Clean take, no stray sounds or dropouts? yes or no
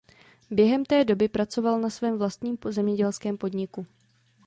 yes